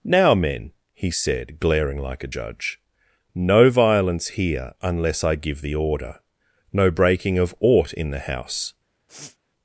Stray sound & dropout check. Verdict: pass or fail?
fail